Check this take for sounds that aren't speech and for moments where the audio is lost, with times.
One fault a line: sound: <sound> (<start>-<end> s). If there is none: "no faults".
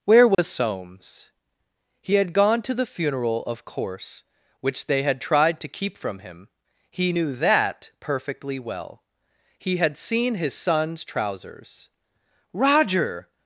sound: dropout (0.3-0.4 s)